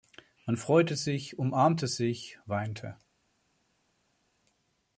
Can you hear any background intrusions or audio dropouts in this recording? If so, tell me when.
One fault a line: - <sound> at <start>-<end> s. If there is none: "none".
none